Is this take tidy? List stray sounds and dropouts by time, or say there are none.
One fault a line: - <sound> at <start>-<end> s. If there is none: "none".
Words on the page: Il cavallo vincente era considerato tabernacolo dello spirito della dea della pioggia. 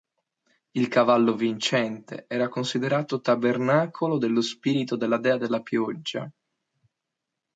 none